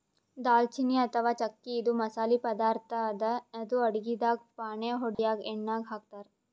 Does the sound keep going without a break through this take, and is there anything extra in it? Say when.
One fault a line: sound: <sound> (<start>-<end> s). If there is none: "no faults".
sound: dropout (5.1-5.2 s)